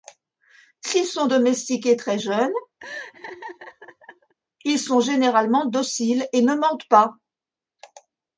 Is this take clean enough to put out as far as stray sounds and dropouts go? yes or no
no